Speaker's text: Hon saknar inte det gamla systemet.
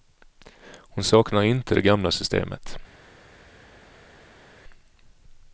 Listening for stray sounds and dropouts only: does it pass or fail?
pass